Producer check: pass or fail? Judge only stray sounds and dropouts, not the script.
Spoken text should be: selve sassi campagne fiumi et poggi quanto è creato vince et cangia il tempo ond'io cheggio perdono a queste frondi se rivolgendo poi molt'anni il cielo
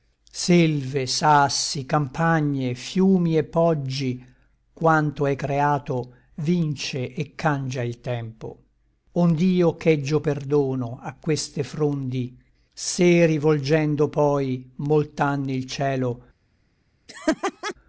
fail